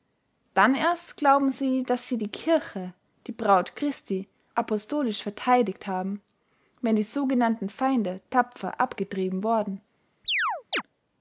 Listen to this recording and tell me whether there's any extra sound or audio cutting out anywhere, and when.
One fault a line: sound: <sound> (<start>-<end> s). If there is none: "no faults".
sound: chirp (10.2-10.8 s)